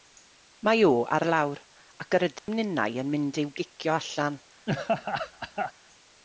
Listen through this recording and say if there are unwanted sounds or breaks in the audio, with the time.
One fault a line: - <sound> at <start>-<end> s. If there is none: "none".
- dropout at 2.4-2.5 s
- laugh at 4.7-5.7 s